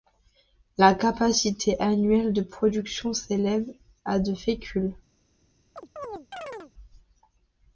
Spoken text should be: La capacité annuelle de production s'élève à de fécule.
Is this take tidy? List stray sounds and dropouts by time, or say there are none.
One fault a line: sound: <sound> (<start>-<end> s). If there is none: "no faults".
sound: chirp (5.8-6.7 s)